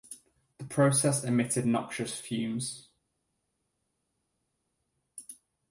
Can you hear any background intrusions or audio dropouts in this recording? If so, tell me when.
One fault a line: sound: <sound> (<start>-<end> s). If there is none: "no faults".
no faults